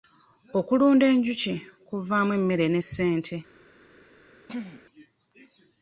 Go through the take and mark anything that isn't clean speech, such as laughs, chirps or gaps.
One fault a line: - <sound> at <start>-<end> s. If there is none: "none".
- throat clearing at 4.5-4.9 s